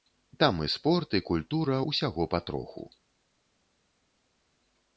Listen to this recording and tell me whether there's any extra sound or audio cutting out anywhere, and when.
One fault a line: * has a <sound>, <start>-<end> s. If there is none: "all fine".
all fine